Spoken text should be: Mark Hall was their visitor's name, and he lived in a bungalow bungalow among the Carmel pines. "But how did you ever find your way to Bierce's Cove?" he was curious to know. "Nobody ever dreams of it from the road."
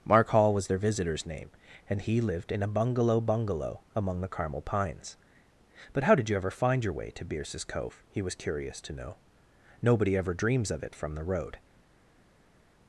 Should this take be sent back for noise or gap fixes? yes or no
no